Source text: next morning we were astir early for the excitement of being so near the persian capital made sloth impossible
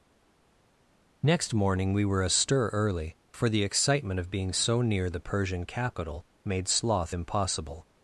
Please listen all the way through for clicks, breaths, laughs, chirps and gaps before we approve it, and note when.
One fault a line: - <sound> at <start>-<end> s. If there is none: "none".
none